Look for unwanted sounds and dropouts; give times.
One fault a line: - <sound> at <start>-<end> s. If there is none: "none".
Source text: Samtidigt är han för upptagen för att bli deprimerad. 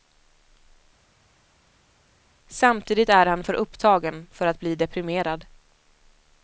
none